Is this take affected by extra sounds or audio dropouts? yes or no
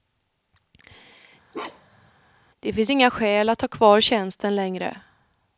yes